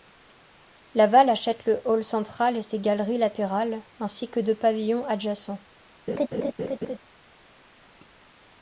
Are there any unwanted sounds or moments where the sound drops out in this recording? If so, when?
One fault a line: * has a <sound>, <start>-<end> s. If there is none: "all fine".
* has a laugh, 6.1-7.0 s